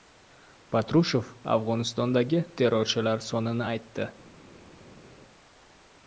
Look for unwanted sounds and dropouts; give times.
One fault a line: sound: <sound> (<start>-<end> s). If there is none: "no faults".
no faults